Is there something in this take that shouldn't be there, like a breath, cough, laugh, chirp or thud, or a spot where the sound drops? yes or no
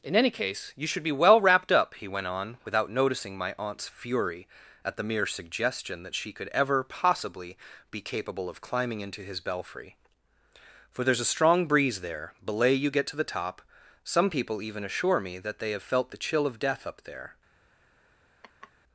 yes